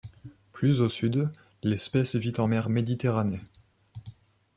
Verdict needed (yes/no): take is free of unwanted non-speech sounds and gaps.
yes